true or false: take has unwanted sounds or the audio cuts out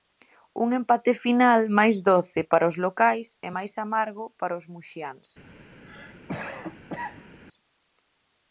true